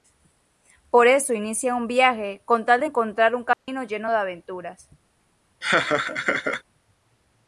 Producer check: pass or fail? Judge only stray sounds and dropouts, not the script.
fail